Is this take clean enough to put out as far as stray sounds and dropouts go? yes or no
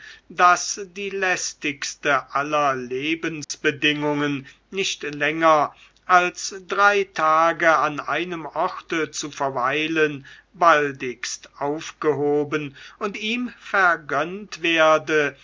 no